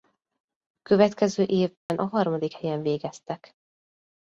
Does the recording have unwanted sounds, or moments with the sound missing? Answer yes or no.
yes